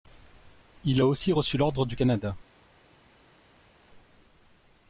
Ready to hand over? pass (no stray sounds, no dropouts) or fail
pass